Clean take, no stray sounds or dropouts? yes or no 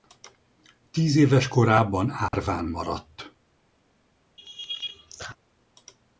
no